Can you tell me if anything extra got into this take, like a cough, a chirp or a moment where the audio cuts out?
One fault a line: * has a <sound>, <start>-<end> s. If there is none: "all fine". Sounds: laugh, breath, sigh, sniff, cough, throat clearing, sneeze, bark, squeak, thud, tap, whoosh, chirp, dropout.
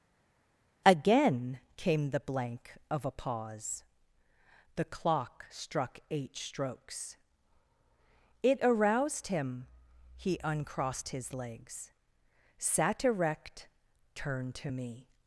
all fine